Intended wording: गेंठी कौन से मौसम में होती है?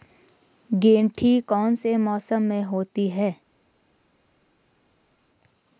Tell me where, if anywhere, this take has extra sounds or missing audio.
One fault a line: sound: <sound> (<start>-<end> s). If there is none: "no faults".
no faults